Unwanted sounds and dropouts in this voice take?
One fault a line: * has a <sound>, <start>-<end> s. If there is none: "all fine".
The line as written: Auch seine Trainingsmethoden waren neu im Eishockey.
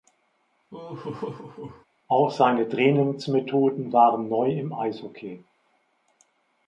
* has a laugh, 0.7-1.9 s